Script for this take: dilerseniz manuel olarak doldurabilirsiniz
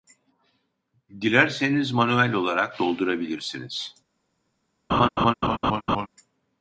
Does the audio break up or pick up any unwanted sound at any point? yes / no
yes